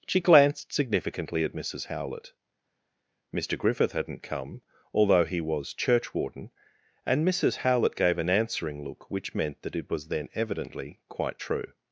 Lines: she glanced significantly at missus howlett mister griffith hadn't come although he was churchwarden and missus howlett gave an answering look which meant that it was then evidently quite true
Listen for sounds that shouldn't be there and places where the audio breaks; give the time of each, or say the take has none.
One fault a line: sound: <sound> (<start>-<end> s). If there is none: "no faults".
no faults